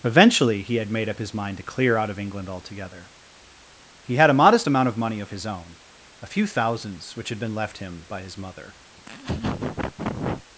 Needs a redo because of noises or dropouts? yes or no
yes